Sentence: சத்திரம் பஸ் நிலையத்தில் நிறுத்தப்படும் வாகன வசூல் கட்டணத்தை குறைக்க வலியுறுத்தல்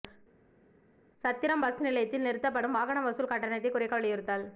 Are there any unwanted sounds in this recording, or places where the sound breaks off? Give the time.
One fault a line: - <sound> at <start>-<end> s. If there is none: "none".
none